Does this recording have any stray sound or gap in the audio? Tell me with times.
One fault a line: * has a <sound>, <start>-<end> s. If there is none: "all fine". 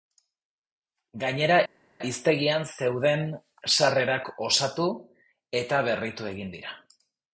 all fine